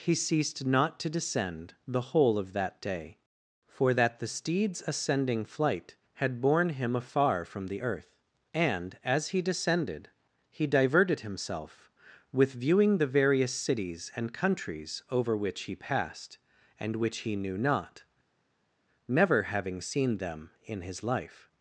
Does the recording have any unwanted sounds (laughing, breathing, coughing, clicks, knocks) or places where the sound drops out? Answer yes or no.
no